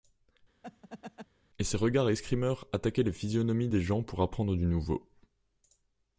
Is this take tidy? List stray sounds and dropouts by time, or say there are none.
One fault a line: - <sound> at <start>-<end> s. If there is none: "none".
- laugh at 0.6-1.3 s